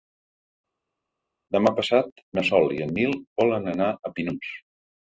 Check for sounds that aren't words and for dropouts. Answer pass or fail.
pass